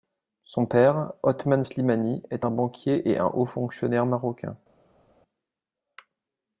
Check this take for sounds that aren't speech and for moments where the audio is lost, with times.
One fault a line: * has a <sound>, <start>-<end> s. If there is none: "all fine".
all fine